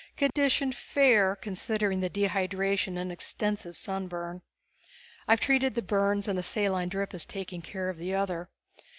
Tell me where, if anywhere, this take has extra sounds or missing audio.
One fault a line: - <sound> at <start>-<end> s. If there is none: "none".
- dropout at 0.3-0.4 s